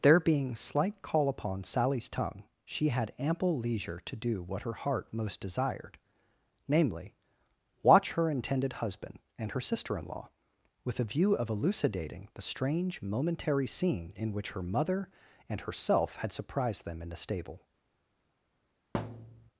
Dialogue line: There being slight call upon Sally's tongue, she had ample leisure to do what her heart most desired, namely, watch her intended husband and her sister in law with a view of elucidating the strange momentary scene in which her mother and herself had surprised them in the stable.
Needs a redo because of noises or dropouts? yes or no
yes